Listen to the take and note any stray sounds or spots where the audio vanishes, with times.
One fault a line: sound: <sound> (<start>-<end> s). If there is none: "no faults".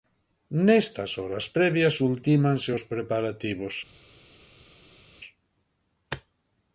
no faults